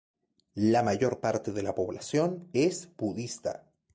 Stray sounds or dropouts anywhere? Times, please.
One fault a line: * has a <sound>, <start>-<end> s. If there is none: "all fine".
all fine